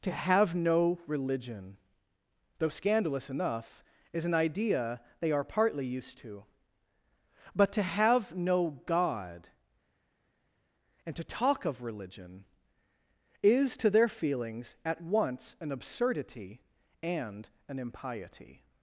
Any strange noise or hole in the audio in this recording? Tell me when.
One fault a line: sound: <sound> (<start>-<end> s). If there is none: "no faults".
no faults